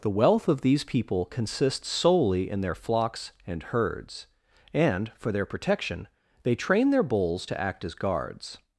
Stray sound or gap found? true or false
false